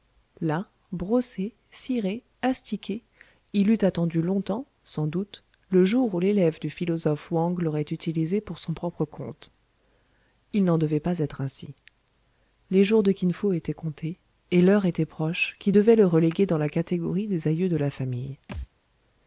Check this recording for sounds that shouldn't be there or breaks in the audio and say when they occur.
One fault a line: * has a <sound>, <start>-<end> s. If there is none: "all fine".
* has a thud, 18.5-18.7 s